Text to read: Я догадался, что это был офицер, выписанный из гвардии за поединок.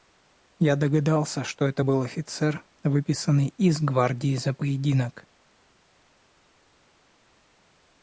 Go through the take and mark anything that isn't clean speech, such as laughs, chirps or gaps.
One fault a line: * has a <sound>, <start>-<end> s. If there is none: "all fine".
all fine